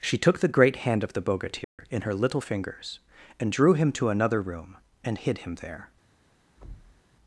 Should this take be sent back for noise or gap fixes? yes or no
yes